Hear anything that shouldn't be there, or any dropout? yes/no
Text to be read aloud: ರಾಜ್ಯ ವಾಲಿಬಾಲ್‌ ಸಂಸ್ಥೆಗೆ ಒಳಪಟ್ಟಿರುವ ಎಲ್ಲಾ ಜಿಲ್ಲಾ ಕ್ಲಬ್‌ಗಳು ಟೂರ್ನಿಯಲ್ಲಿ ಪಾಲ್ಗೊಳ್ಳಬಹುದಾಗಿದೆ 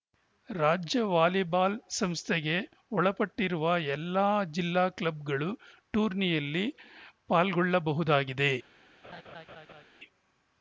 yes